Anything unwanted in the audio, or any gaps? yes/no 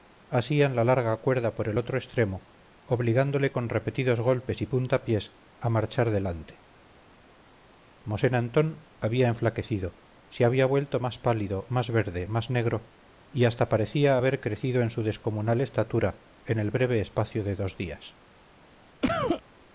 yes